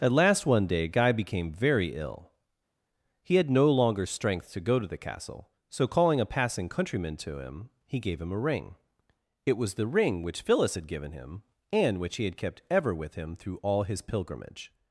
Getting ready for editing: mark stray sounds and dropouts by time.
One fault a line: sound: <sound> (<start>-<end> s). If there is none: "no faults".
no faults